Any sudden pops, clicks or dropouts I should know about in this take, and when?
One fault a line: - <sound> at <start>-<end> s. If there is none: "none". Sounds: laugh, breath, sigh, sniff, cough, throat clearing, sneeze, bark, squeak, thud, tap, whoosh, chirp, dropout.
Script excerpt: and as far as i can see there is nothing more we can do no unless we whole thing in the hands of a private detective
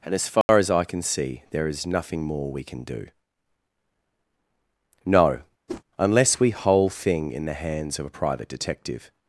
- dropout at 0.4-0.5 s
- whoosh at 5.7-5.8 s